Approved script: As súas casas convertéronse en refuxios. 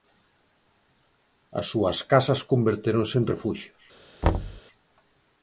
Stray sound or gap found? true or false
true